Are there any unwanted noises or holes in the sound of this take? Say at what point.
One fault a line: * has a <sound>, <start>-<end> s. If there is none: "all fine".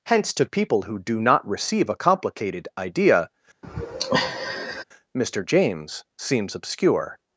* has a sigh, 3.6-4.8 s